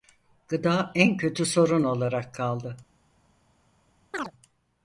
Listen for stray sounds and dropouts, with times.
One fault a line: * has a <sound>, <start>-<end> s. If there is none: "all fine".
* has a chirp, 4.1-4.3 s